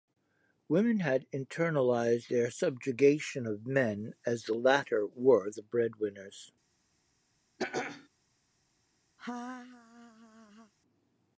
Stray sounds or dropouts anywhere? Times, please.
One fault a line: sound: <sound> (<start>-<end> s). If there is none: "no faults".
sound: throat clearing (7.6-8.1 s)
sound: laugh (9.2-10.7 s)